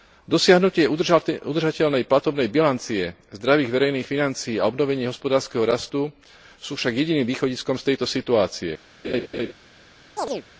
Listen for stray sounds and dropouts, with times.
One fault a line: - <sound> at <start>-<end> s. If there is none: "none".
- laugh at 9.0-9.5 s
- chirp at 10.2-10.4 s